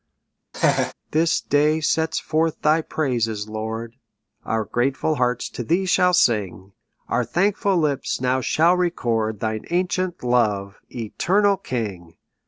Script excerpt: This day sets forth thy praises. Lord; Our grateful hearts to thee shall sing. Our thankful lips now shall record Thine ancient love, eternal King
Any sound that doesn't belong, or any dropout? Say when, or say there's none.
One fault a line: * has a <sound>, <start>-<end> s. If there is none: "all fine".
* has a laugh, 0.5-0.9 s